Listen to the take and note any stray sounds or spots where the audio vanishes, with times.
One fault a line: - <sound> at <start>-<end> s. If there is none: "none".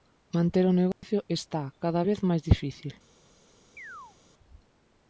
- dropout at 0.9-1.0 s
- chirp at 3.8-4.2 s